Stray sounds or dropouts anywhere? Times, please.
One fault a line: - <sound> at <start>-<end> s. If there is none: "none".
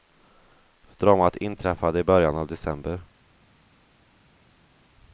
none